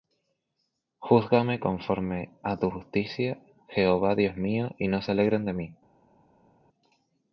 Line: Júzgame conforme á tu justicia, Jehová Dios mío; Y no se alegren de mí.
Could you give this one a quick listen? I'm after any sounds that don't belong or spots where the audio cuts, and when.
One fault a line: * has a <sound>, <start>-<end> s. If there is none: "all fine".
all fine